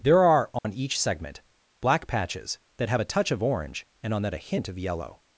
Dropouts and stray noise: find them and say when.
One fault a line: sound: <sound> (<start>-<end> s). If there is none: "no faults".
sound: dropout (0.6-0.6 s)